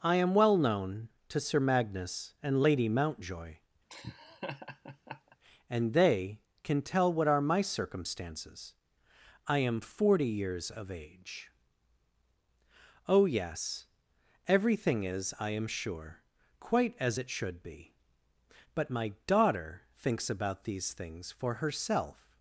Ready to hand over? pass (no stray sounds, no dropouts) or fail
fail